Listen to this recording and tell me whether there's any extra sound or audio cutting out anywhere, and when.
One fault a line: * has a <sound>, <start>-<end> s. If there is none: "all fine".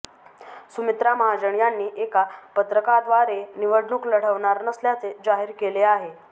all fine